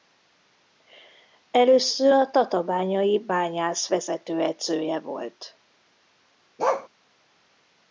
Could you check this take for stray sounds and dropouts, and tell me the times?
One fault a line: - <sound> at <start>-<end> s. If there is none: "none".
- bark at 6.6-6.9 s